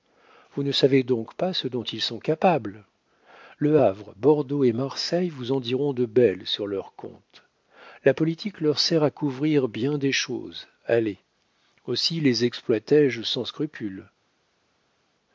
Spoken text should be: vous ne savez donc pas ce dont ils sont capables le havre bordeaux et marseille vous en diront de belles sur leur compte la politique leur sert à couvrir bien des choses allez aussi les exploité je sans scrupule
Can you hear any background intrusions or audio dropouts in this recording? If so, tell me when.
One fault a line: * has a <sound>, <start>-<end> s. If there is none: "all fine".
all fine